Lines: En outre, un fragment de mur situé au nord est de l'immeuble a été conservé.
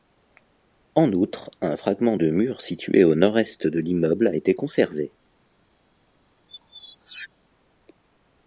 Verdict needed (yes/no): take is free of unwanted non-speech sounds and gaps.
no